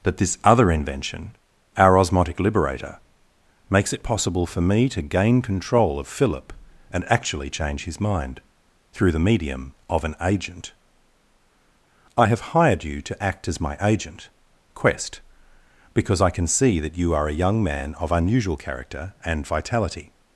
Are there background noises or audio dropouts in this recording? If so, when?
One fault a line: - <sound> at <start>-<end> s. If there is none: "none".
none